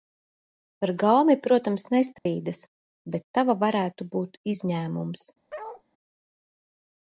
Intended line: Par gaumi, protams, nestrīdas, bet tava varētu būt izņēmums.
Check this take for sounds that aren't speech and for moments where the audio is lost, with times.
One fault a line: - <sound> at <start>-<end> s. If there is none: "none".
- dropout at 2.2-2.3 s
- bark at 5.5-5.8 s